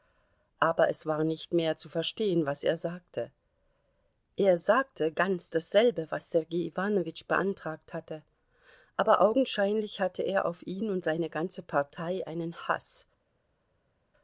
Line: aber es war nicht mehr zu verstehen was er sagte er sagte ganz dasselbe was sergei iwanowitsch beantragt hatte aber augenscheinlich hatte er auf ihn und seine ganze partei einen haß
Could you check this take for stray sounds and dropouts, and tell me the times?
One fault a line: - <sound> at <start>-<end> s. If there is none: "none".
none